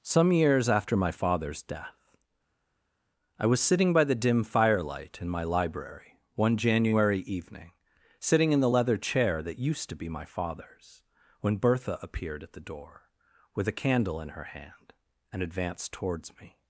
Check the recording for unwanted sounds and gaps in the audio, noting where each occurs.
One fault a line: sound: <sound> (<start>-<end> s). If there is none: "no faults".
no faults